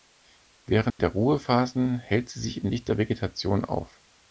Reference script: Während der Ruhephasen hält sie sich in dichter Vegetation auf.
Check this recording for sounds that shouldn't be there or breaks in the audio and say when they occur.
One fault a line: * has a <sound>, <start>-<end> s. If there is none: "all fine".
* has a dropout, 0.9-1.0 s